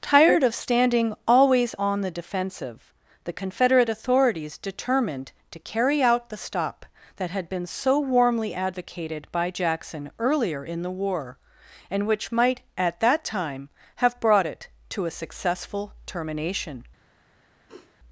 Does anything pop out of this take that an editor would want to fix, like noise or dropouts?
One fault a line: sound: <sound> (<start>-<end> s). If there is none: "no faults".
sound: sniff (17.7-18.0 s)